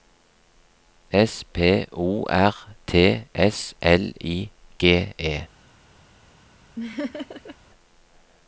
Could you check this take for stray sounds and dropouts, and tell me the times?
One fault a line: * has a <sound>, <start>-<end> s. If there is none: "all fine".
* has a laugh, 6.8-7.6 s